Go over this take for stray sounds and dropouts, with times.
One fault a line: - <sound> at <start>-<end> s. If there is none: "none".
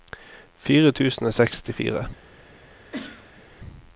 - cough at 2.9-3.4 s